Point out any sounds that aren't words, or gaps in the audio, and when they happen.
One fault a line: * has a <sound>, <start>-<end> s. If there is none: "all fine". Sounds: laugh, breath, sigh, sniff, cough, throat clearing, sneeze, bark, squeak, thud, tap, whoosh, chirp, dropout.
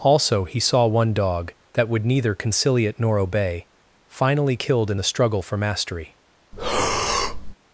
* has a breath, 6.5-7.5 s